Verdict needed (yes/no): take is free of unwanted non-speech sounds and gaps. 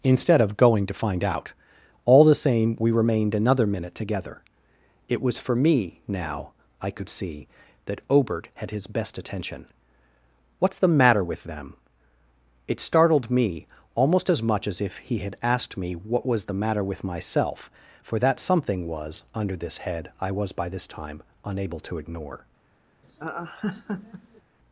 no